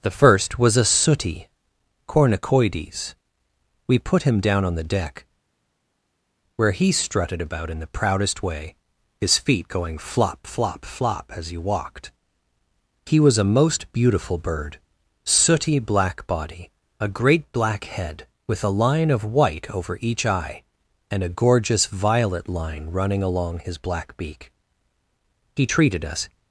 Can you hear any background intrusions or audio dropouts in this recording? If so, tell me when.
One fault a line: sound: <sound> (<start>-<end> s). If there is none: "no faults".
no faults